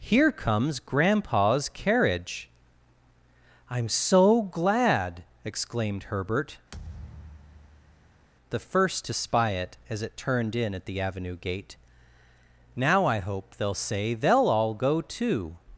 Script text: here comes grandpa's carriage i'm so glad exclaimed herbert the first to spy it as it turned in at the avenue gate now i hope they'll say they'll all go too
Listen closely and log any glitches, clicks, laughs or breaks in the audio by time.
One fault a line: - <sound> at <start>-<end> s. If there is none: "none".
- thud at 6.7-8.3 s